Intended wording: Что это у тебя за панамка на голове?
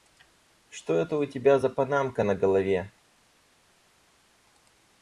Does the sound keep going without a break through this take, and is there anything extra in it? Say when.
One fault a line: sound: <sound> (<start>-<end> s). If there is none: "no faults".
no faults